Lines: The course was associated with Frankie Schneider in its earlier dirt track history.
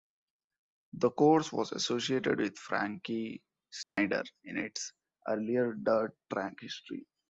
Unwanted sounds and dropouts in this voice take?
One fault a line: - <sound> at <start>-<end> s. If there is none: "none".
- dropout at 3.8-4.0 s